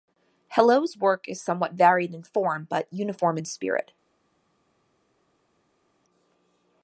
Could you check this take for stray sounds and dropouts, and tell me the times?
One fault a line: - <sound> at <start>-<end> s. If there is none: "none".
none